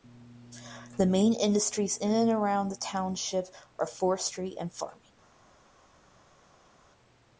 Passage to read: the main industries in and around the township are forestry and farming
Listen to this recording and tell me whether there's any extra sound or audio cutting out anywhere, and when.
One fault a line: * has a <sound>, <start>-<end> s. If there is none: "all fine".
all fine